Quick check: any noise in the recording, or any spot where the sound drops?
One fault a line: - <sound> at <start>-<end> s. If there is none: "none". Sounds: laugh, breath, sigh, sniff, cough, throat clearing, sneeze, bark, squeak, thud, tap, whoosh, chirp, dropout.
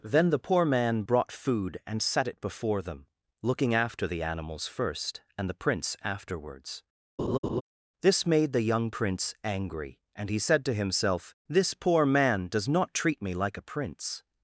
- laugh at 7.2-7.6 s